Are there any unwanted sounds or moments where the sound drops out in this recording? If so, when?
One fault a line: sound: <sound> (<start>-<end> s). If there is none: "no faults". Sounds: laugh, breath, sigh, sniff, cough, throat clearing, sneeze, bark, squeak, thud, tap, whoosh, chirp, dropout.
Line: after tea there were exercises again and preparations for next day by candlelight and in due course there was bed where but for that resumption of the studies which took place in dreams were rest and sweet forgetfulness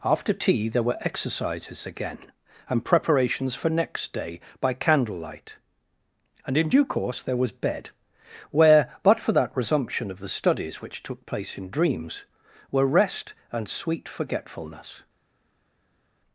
no faults